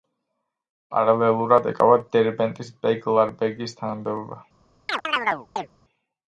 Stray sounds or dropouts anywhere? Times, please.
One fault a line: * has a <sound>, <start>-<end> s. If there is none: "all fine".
* has a chirp, 4.9-5.7 s